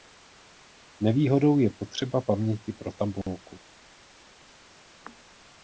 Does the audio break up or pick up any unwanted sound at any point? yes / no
no